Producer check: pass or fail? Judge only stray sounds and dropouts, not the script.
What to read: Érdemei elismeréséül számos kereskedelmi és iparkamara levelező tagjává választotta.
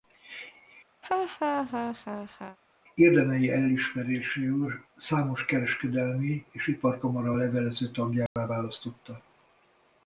fail